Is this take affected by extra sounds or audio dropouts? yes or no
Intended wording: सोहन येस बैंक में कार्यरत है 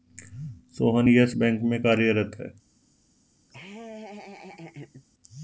yes